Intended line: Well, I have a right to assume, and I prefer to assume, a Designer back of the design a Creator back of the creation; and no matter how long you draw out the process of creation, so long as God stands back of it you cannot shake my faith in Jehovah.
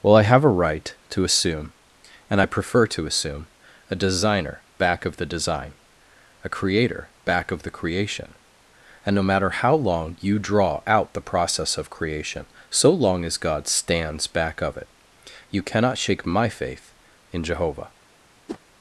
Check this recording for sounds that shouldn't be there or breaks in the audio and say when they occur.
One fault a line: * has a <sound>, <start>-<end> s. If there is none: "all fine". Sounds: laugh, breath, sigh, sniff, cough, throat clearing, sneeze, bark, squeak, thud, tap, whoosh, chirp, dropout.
* has a whoosh, 18.5-18.6 s